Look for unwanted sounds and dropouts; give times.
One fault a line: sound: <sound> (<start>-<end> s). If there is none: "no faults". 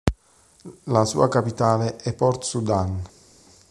no faults